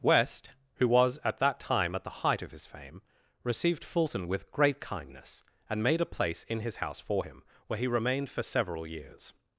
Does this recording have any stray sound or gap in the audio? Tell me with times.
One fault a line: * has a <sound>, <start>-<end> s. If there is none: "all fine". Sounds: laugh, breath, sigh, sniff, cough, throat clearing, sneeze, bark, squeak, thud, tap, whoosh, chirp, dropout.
all fine